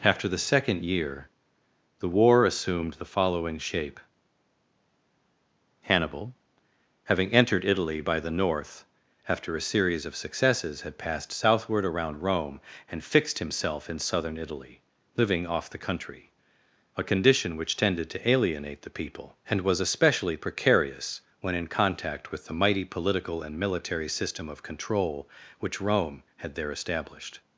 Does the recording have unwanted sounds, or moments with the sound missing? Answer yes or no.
no